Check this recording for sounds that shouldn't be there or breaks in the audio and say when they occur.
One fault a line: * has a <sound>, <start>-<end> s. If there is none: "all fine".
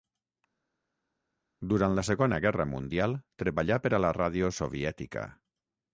all fine